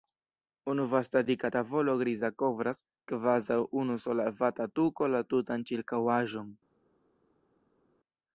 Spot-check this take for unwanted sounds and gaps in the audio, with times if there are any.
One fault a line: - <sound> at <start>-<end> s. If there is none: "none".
none